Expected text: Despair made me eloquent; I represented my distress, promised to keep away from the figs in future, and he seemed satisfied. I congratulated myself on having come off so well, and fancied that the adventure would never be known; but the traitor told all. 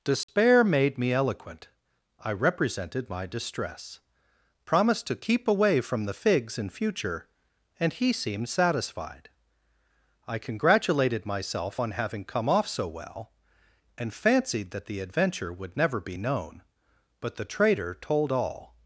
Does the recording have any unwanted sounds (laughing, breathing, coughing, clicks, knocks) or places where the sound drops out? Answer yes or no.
yes